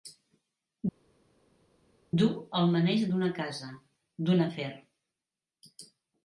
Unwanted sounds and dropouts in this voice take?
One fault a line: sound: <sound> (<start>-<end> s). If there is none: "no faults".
no faults